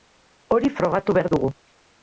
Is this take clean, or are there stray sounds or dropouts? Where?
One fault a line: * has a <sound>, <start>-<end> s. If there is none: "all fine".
all fine